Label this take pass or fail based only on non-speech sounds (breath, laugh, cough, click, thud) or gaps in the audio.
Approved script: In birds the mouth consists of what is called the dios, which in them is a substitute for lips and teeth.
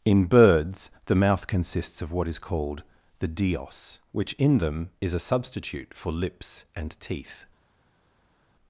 pass